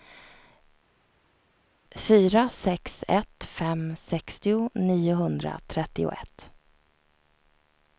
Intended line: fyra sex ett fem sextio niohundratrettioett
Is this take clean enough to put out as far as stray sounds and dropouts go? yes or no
yes